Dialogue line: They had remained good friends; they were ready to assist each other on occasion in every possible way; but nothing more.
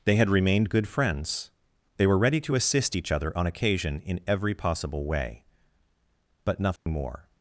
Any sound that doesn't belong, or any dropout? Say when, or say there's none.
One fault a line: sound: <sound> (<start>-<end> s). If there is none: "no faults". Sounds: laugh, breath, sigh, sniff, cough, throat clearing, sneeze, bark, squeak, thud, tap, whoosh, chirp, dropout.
sound: dropout (6.8-6.9 s)